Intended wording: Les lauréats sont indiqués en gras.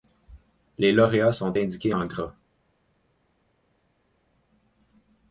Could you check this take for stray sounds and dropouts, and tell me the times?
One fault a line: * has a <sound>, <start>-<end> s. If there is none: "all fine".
all fine